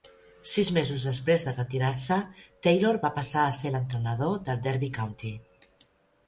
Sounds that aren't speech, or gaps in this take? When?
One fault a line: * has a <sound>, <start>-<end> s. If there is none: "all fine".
all fine